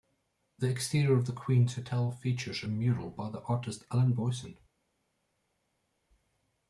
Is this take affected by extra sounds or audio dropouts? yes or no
no